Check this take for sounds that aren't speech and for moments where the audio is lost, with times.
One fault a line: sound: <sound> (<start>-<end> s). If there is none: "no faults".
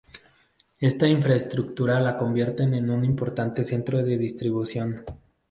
no faults